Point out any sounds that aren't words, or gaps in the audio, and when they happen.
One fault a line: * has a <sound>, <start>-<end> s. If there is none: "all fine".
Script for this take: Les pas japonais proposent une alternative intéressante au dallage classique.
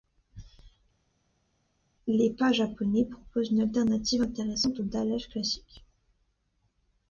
all fine